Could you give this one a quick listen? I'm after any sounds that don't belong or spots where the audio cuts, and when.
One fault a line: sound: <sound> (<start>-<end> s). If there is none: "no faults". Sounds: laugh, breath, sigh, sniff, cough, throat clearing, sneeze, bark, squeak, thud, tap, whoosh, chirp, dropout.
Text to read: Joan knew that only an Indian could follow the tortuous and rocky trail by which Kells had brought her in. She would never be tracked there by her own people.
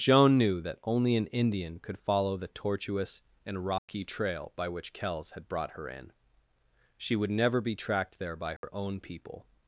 sound: dropout (3.8-3.9 s)
sound: dropout (8.6-8.6 s)